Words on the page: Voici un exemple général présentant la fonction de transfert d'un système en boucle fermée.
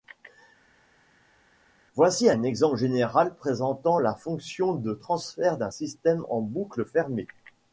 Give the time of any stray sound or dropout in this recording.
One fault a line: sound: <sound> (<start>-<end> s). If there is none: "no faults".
no faults